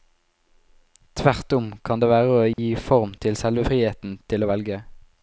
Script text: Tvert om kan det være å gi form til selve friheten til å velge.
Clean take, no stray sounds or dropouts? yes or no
no